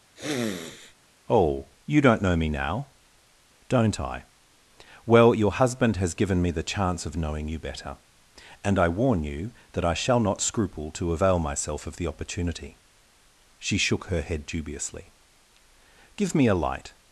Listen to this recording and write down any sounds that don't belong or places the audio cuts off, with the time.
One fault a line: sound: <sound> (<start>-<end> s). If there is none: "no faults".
sound: sniff (0.2-0.9 s)